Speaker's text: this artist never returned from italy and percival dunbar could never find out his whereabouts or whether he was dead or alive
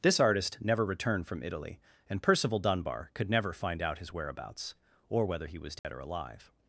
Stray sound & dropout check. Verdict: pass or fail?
fail